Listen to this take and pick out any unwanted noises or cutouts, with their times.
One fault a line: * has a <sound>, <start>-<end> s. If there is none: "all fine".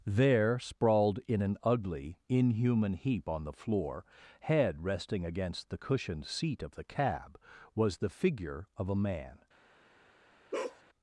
* has a bark, 10.5-10.8 s